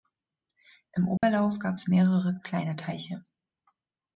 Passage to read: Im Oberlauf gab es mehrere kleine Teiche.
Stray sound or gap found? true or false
true